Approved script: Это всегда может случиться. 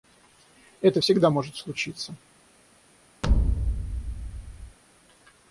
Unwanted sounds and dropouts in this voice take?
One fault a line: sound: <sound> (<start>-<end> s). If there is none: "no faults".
sound: thud (3.2-4.8 s)